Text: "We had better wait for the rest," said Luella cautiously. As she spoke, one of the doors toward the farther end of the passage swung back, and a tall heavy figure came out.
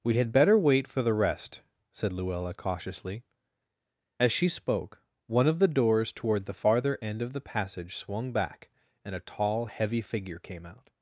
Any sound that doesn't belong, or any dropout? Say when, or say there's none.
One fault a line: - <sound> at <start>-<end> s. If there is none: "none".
none